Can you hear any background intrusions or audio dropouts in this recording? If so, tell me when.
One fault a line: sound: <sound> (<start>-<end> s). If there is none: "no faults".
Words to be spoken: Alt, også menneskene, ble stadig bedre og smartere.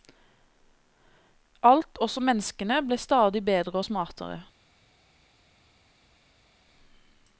no faults